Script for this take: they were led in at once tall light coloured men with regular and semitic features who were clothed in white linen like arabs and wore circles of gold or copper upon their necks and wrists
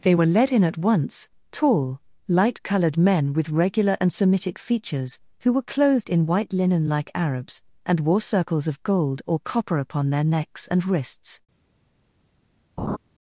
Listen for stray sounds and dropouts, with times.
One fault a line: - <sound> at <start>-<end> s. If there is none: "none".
- laugh at 12.8-13.0 s